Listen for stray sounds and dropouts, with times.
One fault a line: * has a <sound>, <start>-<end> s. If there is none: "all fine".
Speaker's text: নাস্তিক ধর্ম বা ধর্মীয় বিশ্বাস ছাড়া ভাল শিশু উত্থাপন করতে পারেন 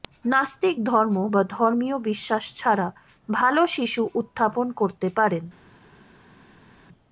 all fine